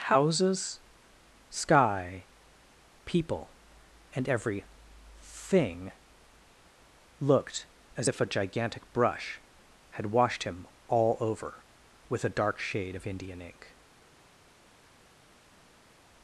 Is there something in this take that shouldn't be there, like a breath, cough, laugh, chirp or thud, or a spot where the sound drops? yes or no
no